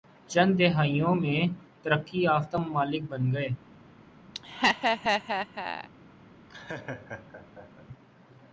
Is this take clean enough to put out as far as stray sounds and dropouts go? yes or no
no